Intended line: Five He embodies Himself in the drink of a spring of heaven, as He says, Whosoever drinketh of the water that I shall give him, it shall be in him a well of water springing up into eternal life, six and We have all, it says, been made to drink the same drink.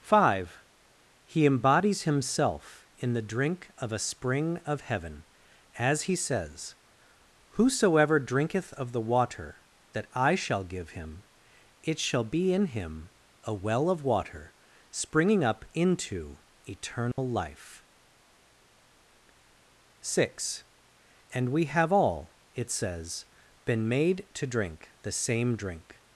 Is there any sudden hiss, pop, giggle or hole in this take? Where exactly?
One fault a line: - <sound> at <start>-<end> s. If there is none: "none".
- dropout at 17.1-17.2 s